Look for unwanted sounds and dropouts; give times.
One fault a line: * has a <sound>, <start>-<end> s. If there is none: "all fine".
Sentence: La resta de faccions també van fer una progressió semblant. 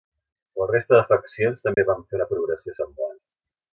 * has a dropout, 1.7-1.8 s